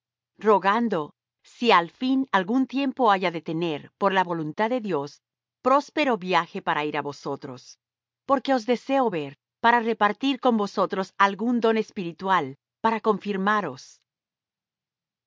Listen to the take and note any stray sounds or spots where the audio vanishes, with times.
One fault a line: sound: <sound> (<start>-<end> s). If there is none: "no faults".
no faults